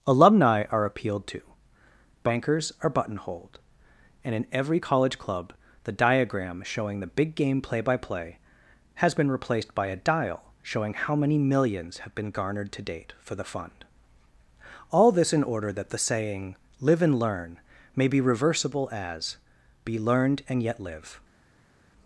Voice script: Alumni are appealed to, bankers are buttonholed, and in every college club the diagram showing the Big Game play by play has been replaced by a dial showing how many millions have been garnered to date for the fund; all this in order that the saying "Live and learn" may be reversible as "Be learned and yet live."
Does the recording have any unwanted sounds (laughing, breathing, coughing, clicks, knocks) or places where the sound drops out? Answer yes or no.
no